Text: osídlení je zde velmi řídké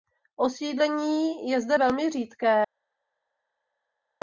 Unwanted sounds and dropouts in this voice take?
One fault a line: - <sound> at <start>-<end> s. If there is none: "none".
none